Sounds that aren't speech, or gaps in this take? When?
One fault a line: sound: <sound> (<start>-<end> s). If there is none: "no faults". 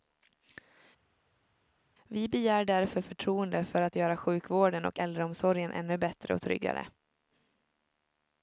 no faults